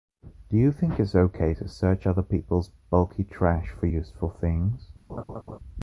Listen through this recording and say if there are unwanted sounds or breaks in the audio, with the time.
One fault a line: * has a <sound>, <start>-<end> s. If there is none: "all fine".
* has a laugh, 5.1-5.6 s